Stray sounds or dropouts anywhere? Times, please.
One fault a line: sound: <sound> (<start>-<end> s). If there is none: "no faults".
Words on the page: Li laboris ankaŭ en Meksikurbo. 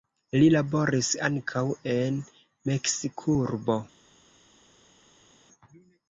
no faults